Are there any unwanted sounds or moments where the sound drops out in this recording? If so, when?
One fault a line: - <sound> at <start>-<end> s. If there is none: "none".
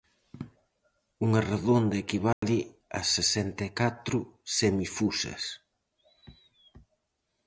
- dropout at 2.3-2.4 s